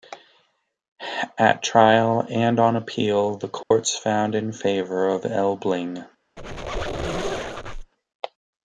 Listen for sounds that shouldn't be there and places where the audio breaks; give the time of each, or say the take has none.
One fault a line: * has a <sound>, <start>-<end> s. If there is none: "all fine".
* has a dropout, 3.6-3.7 s
* has a squeak, 6.4-7.9 s